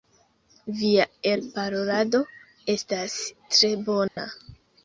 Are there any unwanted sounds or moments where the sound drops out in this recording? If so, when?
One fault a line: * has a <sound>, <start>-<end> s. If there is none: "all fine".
* has a dropout, 4.1-4.2 s